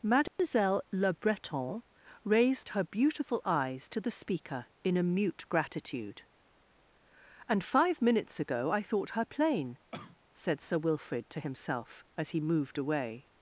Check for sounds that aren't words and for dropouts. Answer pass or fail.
fail